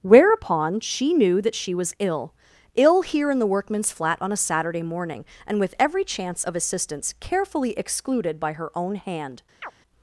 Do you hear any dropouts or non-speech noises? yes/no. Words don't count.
yes